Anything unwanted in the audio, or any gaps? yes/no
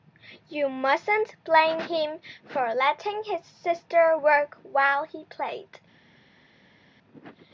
no